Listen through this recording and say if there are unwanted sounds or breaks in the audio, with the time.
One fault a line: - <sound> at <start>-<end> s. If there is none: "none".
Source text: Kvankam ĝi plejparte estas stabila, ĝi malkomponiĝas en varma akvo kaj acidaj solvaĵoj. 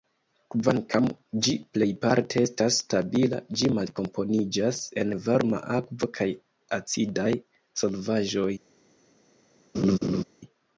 - laugh at 9.7-10.2 s